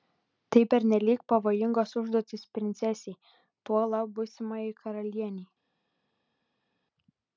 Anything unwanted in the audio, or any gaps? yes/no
no